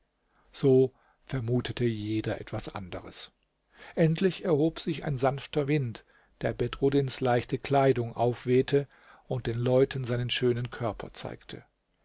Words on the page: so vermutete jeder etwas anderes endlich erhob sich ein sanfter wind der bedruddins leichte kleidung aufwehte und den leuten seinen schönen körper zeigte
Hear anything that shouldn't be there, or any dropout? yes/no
no